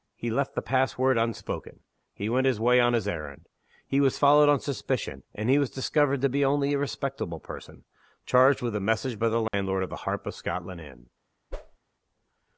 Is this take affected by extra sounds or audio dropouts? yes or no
yes